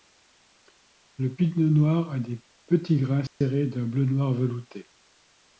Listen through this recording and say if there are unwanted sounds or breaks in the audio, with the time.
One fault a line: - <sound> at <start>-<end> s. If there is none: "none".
- dropout at 3.3-3.4 s